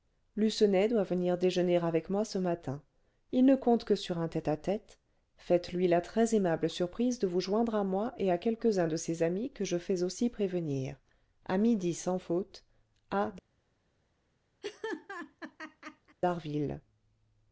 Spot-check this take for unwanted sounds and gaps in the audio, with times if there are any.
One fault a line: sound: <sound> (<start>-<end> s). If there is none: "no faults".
sound: laugh (14.6-16.2 s)